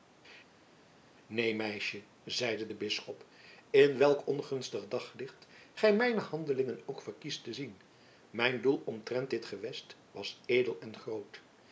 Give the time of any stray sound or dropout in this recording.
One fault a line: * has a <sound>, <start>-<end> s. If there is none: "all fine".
all fine